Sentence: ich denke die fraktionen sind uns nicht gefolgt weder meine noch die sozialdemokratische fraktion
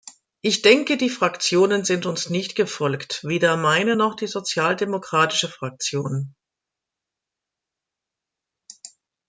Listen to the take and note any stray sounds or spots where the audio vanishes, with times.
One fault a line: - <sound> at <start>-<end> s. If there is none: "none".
none